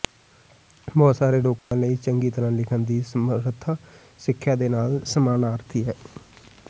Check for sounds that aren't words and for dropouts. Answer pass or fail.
fail